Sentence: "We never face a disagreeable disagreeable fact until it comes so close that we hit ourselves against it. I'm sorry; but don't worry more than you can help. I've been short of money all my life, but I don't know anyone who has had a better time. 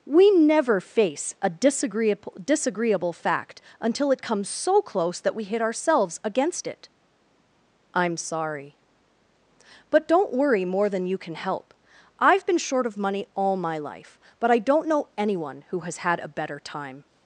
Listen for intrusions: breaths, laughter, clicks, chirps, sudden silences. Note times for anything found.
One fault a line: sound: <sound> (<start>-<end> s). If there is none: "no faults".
no faults